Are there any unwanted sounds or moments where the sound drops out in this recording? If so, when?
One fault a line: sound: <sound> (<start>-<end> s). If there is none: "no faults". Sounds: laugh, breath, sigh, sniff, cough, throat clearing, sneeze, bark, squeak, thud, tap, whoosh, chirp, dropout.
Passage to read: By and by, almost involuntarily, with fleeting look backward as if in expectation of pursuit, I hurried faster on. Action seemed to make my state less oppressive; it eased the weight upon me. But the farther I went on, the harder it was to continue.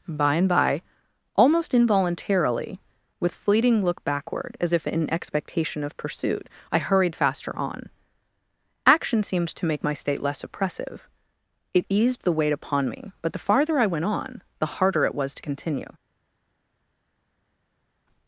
no faults